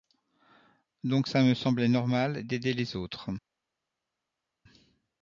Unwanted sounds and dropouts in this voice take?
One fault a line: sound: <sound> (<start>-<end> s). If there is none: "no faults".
no faults